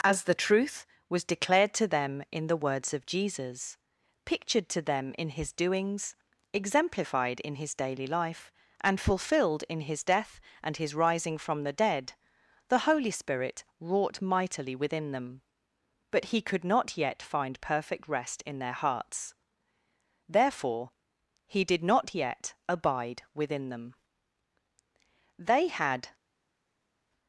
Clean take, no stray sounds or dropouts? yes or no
yes